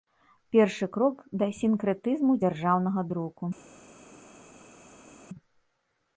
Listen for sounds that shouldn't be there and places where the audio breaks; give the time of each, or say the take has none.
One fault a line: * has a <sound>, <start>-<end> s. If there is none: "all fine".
all fine